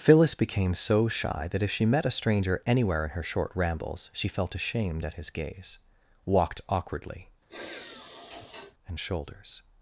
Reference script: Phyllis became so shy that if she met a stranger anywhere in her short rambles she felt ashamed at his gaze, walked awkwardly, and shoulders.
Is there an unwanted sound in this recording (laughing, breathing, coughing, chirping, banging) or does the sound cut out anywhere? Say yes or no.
yes